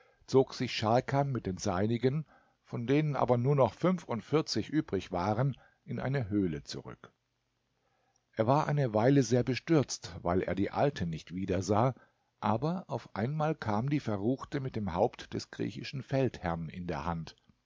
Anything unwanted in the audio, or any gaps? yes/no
no